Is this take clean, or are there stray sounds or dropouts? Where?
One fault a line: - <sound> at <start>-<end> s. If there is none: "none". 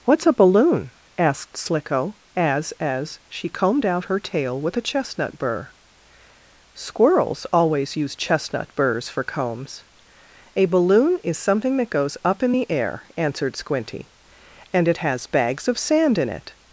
none